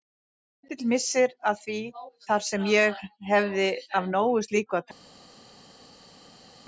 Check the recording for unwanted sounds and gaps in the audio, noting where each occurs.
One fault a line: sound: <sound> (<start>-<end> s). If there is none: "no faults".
no faults